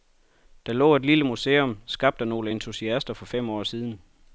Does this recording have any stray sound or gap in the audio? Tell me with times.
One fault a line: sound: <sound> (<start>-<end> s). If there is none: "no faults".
no faults